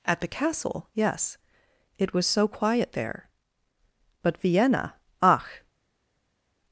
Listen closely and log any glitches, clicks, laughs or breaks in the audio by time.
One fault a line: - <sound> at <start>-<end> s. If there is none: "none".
none